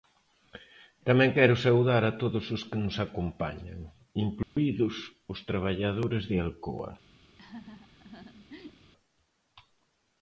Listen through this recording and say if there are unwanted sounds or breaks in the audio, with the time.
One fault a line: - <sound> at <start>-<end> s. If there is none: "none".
- dropout at 4.4-4.6 s
- laugh at 7.4-8.9 s